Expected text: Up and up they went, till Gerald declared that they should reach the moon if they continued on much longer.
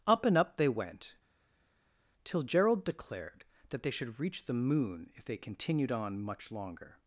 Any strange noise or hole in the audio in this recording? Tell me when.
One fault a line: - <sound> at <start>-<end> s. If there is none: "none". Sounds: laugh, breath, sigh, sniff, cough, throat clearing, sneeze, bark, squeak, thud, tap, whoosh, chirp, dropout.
none